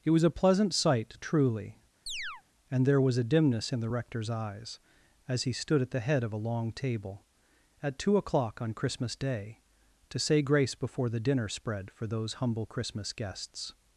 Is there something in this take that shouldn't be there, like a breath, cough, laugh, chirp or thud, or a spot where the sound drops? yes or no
yes